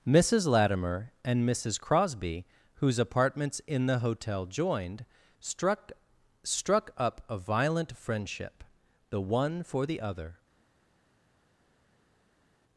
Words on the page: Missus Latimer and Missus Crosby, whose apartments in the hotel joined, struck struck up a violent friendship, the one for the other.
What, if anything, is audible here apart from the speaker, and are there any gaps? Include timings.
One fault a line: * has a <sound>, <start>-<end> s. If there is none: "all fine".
all fine